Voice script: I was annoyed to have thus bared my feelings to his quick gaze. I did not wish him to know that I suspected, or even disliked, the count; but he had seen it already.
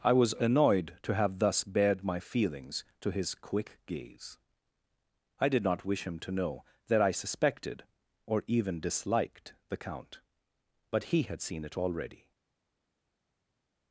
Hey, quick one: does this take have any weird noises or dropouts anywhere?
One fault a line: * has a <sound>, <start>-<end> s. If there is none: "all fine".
all fine